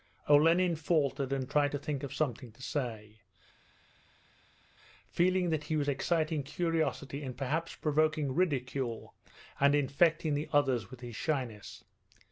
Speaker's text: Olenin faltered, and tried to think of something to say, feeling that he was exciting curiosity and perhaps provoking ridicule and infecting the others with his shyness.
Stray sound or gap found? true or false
false